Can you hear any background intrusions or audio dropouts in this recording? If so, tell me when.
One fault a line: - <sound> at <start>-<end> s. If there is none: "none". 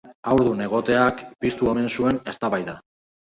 none